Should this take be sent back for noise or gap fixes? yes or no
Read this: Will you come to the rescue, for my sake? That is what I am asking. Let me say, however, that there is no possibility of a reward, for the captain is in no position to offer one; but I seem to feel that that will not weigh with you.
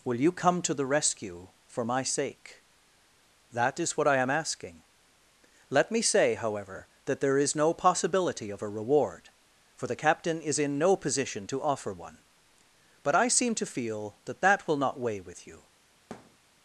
yes